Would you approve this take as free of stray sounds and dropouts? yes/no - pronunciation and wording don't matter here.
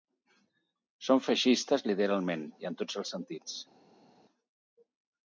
yes